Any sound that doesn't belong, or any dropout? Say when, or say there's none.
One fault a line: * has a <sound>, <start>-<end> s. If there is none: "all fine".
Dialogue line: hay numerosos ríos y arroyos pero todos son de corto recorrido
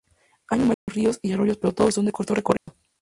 * has a dropout, 0.7-0.9 s
* has a dropout, 2.6-2.7 s